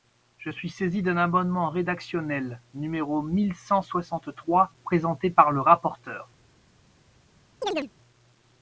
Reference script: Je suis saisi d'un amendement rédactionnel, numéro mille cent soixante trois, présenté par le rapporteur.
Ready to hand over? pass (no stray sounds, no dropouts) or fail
fail